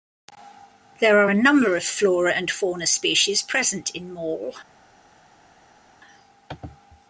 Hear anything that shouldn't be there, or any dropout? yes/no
no